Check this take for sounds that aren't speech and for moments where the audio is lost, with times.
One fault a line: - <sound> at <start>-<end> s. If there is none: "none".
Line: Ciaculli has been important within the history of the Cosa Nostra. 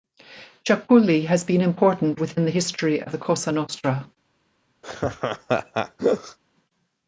- laugh at 4.8-6.4 s